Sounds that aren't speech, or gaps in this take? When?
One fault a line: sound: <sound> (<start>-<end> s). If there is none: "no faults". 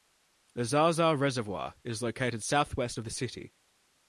no faults